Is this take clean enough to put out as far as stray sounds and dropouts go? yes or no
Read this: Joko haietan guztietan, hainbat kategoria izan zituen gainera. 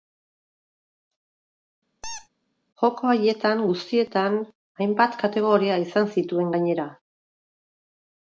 no